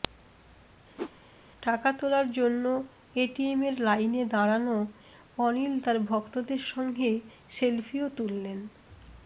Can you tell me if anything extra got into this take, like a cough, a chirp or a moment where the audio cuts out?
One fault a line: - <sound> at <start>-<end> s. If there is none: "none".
- whoosh at 1.0-1.1 s